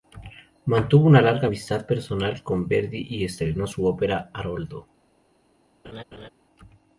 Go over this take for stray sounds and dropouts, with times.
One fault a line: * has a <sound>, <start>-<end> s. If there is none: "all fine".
* has a laugh, 5.8-6.3 s